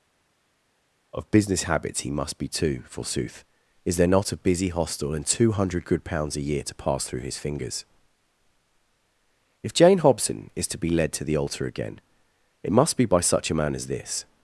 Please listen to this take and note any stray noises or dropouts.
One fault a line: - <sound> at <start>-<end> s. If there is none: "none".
none